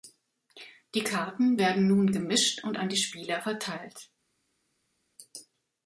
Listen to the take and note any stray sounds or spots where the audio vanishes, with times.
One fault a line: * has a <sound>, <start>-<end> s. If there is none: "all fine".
all fine